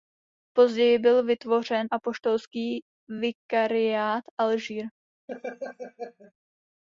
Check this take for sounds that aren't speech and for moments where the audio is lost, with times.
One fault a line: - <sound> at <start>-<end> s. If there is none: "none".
- laugh at 5.3-6.3 s